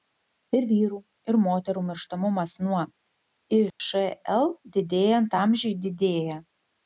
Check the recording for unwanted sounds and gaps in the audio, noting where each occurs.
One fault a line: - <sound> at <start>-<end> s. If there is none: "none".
- dropout at 3.7-3.8 s